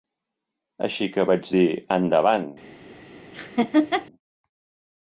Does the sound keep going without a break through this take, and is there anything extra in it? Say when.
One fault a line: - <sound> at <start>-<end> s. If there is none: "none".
- laugh at 3.3-4.1 s